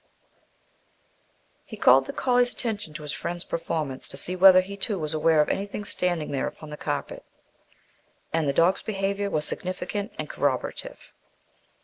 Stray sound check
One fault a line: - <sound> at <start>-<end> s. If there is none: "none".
none